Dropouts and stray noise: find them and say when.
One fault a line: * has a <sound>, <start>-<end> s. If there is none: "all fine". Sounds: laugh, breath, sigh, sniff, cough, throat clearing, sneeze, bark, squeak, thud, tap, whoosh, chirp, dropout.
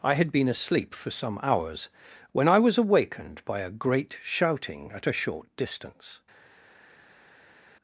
all fine